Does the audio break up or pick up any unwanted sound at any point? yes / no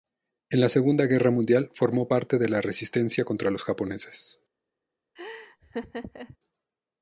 yes